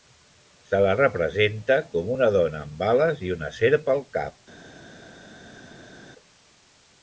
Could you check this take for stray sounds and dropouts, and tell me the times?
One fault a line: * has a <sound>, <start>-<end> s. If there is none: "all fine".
all fine